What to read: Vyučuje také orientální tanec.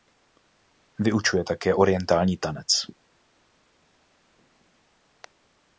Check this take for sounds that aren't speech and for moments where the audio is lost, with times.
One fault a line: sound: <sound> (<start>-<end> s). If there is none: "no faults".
no faults